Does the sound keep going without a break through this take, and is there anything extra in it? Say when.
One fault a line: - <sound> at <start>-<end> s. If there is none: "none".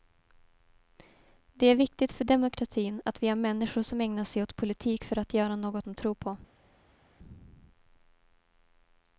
none